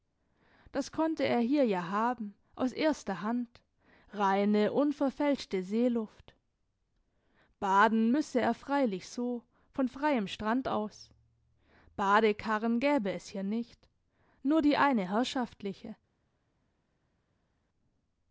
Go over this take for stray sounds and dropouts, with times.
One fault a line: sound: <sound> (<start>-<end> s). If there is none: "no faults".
no faults